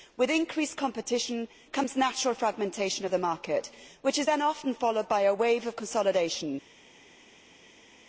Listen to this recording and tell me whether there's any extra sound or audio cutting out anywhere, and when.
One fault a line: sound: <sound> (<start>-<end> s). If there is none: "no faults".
no faults